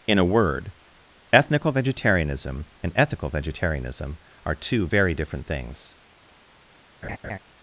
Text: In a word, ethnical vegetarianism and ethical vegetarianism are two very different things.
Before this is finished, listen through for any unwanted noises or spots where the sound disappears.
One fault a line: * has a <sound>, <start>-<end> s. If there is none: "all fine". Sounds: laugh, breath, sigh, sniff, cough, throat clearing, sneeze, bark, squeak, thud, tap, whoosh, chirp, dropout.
* has a laugh, 7.0-7.4 s